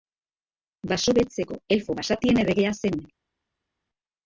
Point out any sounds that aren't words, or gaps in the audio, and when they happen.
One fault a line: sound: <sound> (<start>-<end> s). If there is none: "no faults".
no faults